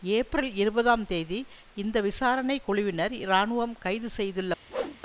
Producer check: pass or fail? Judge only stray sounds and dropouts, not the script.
fail